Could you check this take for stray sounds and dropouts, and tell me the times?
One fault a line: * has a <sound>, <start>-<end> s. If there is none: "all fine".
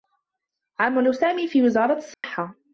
* has a dropout, 2.1-2.2 s